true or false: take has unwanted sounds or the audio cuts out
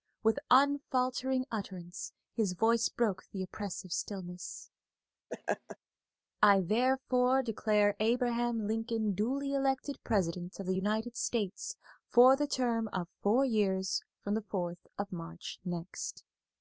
true